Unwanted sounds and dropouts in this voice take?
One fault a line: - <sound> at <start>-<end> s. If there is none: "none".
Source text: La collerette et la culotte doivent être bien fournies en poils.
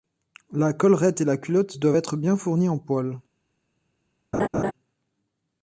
- laugh at 4.3-4.7 s